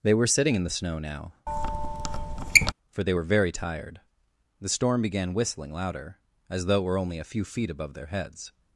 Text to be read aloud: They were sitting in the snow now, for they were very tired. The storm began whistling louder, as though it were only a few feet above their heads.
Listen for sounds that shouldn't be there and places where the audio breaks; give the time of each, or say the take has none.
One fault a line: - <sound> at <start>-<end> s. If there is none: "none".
- squeak at 1.5-2.7 s